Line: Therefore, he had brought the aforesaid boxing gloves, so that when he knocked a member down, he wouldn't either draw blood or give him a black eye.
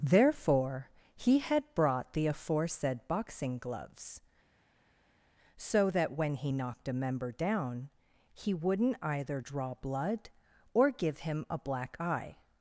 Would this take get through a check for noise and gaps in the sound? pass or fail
pass